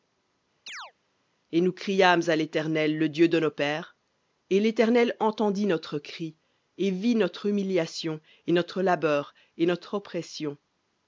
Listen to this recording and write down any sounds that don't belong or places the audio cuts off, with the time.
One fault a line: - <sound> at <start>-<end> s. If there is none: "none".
- chirp at 0.7-0.9 s